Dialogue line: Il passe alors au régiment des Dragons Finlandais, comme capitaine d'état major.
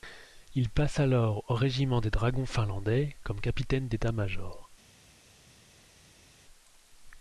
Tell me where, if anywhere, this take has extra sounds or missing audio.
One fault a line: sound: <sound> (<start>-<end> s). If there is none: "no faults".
no faults